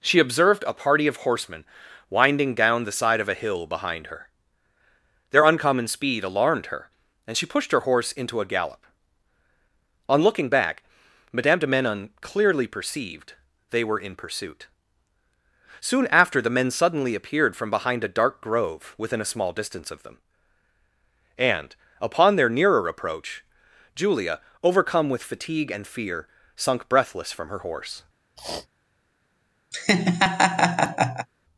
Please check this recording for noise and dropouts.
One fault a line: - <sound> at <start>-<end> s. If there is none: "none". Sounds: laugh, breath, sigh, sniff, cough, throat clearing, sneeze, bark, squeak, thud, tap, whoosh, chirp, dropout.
- sniff at 28.4-28.7 s
- laugh at 29.7-31.3 s